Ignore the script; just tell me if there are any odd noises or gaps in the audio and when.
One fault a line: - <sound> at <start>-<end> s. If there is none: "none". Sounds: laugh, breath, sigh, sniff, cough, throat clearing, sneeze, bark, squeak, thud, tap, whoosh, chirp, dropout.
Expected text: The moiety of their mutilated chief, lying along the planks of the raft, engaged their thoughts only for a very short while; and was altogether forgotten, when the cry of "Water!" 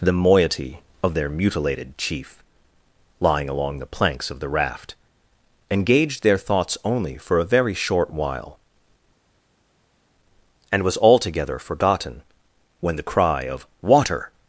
none